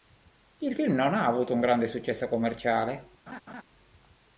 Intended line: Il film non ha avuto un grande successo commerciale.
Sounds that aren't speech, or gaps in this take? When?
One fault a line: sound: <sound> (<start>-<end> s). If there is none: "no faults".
sound: laugh (3.3-3.6 s)